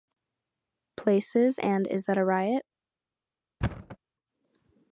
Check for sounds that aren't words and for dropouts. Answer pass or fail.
fail